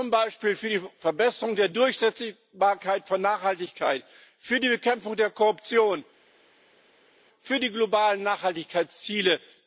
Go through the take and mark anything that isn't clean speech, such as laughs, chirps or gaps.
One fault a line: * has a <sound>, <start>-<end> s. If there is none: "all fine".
all fine